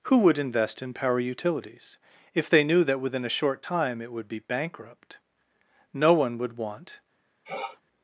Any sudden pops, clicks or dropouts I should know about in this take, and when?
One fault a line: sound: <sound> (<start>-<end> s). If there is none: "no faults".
sound: sniff (7.4-7.8 s)